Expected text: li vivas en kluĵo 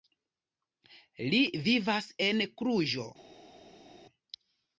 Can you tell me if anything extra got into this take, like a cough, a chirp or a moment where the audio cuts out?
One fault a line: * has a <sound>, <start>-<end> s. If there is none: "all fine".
all fine